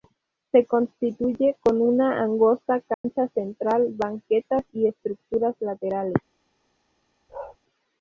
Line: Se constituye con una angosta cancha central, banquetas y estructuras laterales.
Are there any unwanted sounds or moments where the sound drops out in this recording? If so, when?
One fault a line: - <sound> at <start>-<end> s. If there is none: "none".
- dropout at 2.9-3.0 s
- bark at 7.3-7.6 s